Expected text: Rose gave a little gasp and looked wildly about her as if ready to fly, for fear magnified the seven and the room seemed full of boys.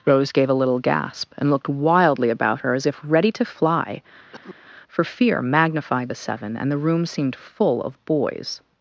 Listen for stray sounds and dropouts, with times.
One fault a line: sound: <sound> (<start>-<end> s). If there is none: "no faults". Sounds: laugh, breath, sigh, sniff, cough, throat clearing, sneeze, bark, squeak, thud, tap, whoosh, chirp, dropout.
sound: cough (4.3-4.6 s)